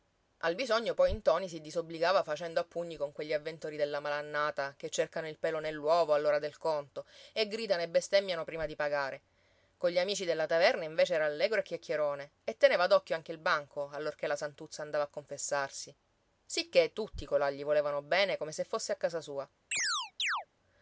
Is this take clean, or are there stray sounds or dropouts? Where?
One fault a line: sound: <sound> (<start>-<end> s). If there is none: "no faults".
sound: chirp (19.7-20.5 s)